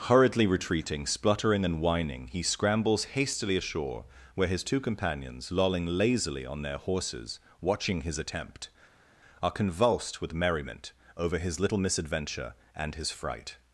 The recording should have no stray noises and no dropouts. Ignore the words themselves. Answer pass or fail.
pass